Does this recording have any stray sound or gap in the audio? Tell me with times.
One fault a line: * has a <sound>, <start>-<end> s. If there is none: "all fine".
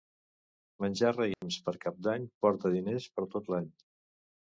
* has a dropout, 1.3-1.4 s